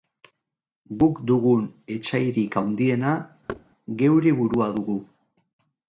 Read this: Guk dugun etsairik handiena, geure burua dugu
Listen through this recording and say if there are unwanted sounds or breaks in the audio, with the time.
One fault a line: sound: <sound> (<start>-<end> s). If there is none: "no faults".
sound: thud (3.5-3.6 s)